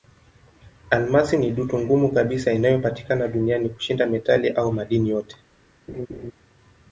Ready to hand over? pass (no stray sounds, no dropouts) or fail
fail